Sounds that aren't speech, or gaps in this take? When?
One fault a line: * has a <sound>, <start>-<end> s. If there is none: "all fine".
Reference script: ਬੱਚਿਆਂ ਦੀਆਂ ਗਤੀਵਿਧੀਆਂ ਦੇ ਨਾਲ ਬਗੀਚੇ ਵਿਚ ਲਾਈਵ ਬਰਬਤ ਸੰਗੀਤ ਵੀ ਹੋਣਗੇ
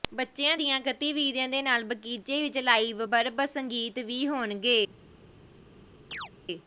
* has a chirp, 6.1-6.3 s